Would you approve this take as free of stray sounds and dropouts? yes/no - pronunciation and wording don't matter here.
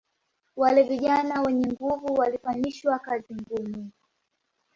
yes